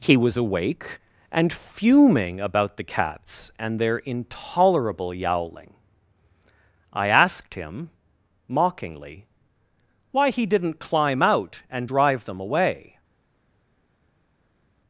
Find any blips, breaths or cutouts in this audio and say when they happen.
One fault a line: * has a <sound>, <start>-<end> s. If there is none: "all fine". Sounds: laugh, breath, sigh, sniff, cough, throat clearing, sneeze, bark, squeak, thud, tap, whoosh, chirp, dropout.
all fine